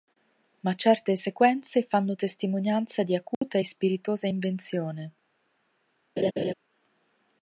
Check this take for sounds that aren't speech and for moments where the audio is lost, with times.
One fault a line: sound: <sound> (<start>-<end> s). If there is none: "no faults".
sound: dropout (3.3-3.4 s)
sound: laugh (6.2-6.5 s)